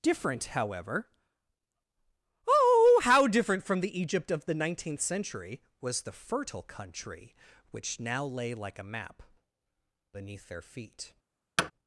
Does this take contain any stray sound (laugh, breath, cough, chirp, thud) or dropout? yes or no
yes